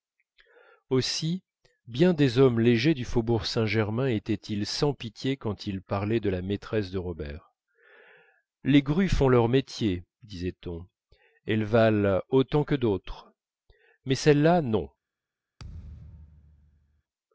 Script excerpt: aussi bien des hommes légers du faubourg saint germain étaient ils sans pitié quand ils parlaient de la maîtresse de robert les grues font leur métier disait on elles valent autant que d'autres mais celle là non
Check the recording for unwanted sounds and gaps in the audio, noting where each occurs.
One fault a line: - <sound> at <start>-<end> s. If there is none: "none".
- thud at 15.6-17.0 s